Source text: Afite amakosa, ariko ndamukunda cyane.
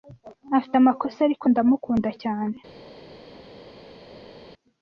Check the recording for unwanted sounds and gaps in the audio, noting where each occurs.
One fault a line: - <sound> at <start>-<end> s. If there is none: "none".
none